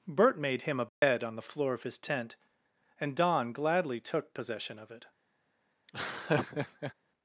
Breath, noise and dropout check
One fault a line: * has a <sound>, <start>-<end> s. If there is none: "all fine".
* has a dropout, 0.9-1.0 s
* has a laugh, 5.9-6.9 s